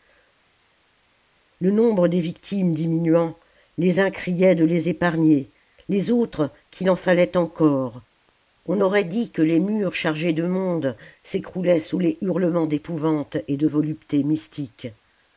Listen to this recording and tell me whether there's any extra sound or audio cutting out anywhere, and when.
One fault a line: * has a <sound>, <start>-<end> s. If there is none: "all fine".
all fine